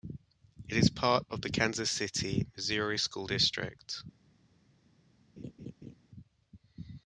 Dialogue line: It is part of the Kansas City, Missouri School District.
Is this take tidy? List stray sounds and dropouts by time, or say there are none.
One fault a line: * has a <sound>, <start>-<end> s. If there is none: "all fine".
* has a laugh, 5.4-6.0 s